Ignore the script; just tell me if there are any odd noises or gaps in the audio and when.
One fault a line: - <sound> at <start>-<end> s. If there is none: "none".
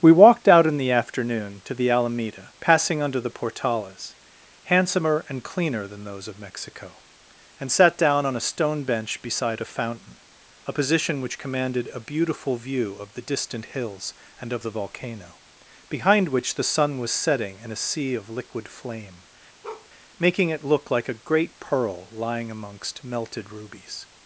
- bark at 19.6-19.9 s